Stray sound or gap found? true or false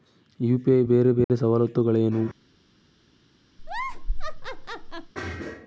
true